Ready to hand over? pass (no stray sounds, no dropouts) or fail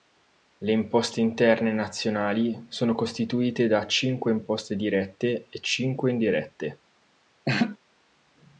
fail